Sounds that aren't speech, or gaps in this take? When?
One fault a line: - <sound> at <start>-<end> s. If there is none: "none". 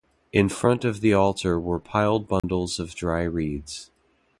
- dropout at 2.4-2.4 s